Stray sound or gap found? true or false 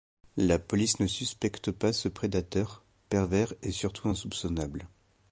false